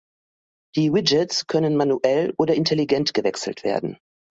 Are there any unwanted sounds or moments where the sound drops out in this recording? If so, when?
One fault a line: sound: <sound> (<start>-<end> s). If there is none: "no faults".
no faults